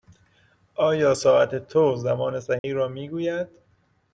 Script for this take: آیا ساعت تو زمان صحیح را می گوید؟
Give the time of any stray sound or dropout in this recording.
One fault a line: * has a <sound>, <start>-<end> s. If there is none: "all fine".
* has a dropout, 2.6-2.6 s